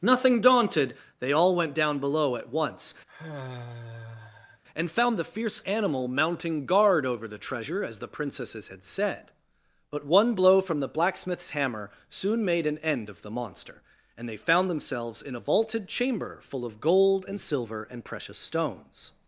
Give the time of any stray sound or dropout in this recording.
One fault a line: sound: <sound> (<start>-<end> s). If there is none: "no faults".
sound: sigh (3.1-4.6 s)